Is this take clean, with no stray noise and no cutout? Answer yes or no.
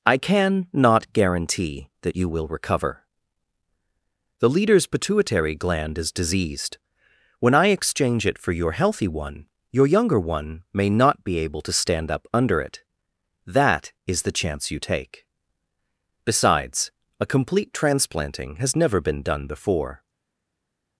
yes